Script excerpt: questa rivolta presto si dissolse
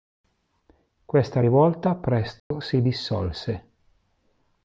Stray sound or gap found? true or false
true